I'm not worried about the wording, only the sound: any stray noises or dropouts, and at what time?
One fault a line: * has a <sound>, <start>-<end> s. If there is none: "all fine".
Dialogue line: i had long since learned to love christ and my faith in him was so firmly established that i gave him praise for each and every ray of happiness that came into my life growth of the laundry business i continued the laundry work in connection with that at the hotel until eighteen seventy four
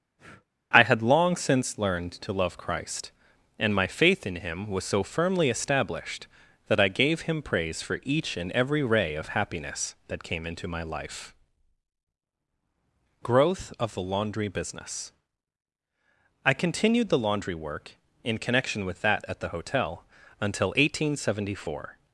* has a breath, 0.2-0.5 s